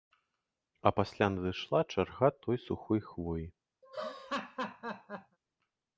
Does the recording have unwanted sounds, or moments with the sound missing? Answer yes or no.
yes